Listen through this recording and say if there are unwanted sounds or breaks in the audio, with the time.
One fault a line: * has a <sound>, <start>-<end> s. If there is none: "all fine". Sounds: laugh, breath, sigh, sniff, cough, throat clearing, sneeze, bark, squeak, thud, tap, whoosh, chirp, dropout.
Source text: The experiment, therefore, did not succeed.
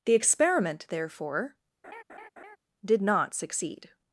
* has a laugh, 1.8-2.6 s